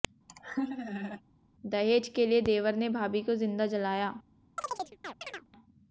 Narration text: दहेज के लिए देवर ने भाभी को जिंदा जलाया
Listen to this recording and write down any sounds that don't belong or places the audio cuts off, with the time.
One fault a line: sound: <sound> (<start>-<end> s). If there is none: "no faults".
sound: laugh (0.3-1.2 s)
sound: chirp (4.6-5.5 s)